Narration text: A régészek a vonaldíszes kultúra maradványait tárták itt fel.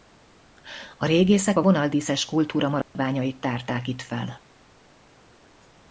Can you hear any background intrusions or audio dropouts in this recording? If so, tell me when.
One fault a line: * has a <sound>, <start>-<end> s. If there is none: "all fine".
* has a dropout, 2.8-3.0 s